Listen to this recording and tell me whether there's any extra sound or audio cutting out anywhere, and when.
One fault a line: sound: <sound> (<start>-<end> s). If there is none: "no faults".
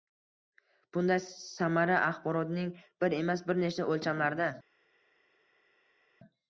no faults